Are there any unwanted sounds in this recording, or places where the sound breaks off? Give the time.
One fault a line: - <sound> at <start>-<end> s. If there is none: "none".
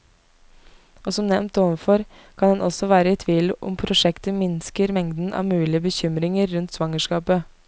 none